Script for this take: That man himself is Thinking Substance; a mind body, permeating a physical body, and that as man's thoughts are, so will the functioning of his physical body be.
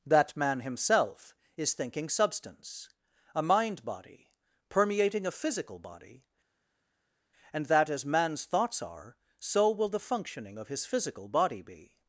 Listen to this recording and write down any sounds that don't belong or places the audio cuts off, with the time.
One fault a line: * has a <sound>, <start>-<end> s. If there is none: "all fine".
all fine